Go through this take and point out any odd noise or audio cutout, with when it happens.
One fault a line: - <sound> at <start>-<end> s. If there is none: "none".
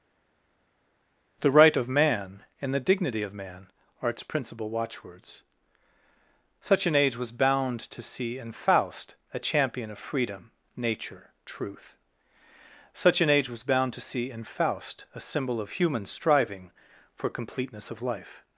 none